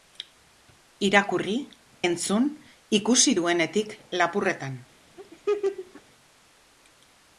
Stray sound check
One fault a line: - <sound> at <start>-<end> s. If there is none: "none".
- laugh at 5.2-6.0 s